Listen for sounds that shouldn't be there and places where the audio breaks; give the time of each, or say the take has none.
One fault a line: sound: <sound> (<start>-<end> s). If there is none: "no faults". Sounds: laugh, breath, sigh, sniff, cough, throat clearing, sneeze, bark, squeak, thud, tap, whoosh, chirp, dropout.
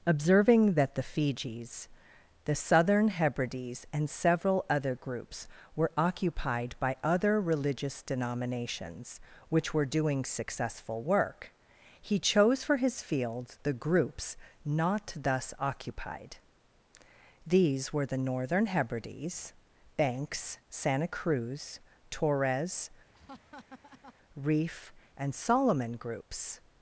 sound: laugh (23.1-24.1 s)